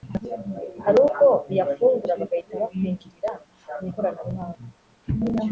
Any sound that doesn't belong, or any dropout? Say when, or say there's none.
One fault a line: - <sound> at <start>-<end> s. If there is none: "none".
none